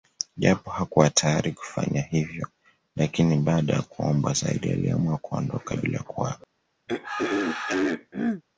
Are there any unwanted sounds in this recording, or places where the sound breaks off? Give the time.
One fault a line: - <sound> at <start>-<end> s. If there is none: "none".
- throat clearing at 6.9-8.4 s